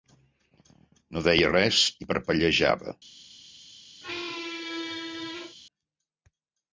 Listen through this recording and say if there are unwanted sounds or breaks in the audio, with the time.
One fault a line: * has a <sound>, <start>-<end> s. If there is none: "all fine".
* has a squeak, 4.0-5.6 s